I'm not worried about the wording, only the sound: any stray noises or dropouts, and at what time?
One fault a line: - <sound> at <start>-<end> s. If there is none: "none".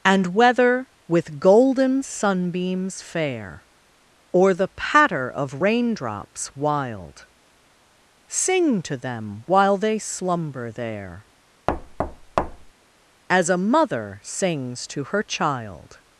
- thud at 11.7-12.7 s